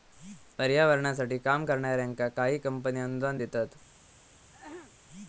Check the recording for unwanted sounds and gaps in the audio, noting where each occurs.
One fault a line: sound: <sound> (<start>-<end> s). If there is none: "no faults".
sound: throat clearing (4.5-4.9 s)